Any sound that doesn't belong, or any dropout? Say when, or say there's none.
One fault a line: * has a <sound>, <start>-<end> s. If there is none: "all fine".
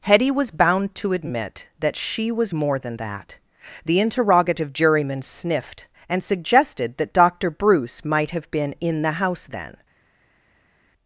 all fine